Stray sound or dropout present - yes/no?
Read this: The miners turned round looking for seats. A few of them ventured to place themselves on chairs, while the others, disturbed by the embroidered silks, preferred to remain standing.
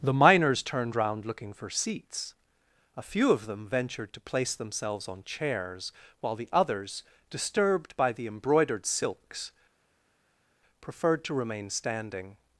no